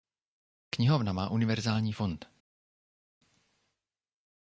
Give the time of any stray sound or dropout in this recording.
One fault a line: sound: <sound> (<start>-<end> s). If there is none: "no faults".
no faults